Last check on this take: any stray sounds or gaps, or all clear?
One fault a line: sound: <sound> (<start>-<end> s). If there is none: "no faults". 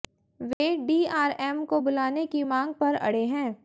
sound: dropout (0.5-0.6 s)